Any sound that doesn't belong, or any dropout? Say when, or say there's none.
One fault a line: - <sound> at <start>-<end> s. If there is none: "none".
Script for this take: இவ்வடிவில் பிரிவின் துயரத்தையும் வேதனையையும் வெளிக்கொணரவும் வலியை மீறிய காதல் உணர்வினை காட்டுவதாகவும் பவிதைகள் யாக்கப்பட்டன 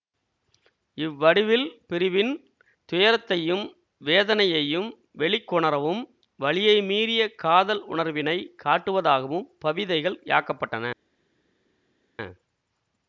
none